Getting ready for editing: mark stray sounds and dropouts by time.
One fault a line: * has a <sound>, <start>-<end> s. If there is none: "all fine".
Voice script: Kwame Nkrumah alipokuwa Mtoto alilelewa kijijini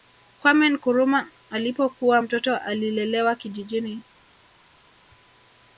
all fine